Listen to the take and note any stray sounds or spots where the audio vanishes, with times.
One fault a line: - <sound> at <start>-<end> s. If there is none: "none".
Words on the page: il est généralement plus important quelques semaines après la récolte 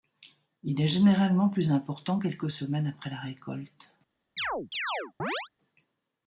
- chirp at 4.4-5.5 s